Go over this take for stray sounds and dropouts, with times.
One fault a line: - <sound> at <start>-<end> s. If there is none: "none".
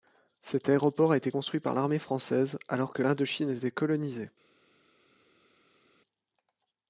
none